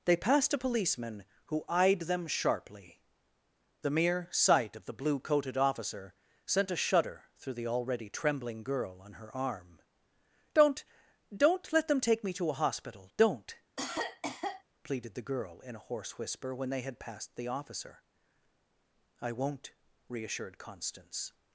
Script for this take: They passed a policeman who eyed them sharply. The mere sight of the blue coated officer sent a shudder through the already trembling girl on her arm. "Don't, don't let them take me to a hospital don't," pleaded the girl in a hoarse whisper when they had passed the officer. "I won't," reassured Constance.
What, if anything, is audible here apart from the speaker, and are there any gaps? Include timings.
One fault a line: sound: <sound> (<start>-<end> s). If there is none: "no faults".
sound: cough (13.8-14.6 s)